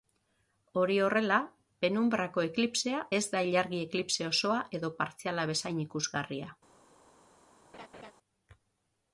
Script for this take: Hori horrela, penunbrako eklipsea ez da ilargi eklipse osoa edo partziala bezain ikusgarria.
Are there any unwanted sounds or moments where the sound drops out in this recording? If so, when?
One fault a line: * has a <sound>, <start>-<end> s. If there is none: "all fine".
* has a laugh, 7.7-8.1 s